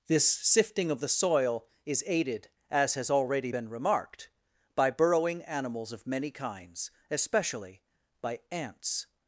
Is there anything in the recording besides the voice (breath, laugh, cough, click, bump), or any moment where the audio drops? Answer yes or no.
no